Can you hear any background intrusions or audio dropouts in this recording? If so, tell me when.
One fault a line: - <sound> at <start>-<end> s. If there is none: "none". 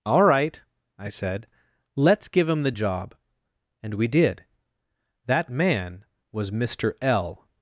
none